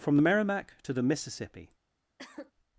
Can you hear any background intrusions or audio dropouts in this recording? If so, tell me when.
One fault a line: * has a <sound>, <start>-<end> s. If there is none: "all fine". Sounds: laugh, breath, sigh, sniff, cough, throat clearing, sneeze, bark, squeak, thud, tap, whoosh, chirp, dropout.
* has a cough, 2.2-2.5 s